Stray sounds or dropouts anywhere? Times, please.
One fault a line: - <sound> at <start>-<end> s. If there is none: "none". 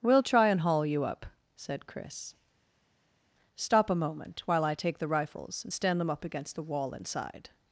none